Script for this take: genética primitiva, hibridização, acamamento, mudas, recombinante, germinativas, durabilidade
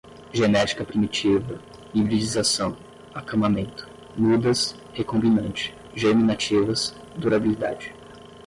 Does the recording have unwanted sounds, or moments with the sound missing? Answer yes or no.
no